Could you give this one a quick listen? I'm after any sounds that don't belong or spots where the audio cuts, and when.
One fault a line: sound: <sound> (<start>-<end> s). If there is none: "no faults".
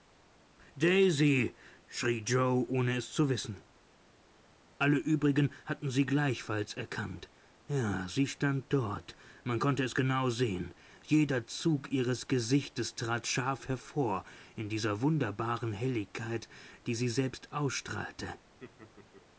sound: laugh (18.6-19.3 s)